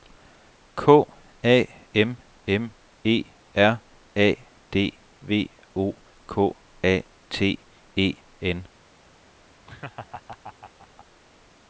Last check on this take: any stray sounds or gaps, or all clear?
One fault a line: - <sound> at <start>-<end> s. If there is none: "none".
- laugh at 9.7-11.1 s